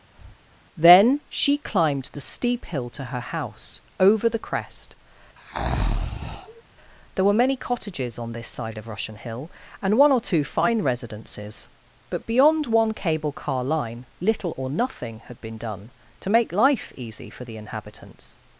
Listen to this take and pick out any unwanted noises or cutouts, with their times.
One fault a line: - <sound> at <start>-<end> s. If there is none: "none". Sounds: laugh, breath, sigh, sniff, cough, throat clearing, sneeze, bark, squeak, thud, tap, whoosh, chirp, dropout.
- breath at 0.1-0.4 s
- breath at 5.4-6.6 s